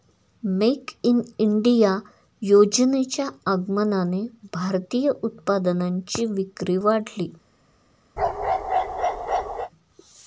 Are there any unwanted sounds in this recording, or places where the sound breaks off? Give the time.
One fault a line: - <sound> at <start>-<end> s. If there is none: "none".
- bark at 8.2-9.7 s